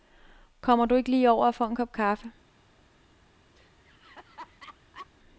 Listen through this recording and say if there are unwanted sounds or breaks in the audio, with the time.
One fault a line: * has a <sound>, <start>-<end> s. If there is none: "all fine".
* has a laugh, 3.6-5.1 s